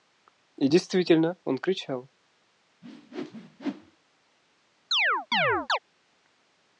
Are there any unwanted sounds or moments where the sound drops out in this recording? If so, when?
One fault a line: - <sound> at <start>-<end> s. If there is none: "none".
- whoosh at 2.8-4.0 s
- chirp at 4.9-5.8 s